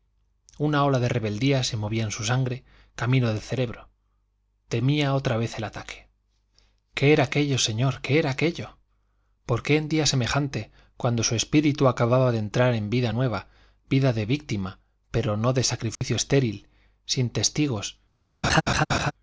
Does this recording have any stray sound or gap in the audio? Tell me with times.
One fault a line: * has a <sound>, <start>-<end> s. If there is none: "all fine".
* has a dropout, 16.0-16.0 s
* has a laugh, 18.4-19.1 s